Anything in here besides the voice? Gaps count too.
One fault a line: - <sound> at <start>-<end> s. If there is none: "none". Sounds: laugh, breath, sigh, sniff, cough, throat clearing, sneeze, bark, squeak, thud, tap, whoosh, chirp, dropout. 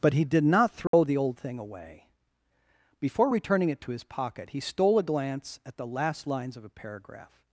- dropout at 0.9-0.9 s